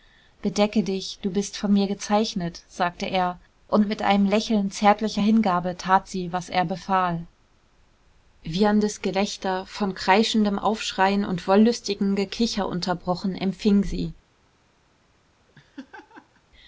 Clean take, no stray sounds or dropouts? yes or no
no